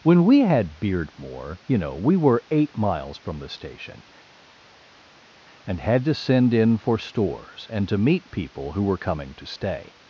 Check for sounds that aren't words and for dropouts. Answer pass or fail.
pass